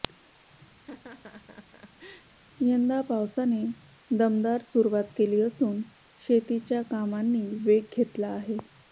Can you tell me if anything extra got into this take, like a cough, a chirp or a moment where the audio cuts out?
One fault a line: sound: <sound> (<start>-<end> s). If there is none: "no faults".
sound: laugh (0.8-2.3 s)